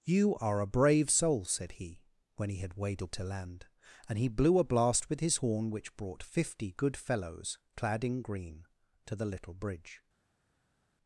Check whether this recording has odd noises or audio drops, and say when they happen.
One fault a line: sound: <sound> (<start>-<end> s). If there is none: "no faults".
no faults